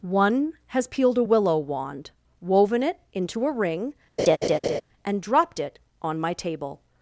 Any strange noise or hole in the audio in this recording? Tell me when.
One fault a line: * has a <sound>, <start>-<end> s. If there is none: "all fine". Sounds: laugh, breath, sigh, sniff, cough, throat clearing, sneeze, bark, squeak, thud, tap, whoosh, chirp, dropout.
* has a laugh, 4.2-4.8 s